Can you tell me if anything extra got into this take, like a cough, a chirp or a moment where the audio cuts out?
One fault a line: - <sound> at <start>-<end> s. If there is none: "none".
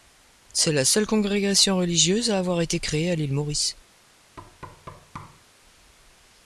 - thud at 4.4-5.4 s